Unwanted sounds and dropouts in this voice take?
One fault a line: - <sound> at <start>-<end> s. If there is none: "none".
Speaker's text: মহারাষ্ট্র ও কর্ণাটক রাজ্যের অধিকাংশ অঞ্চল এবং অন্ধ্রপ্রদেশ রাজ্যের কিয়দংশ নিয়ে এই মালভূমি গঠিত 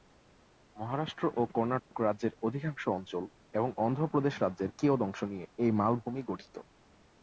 - dropout at 1.8-1.9 s